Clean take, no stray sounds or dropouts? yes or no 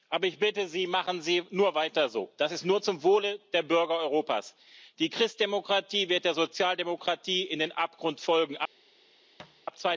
no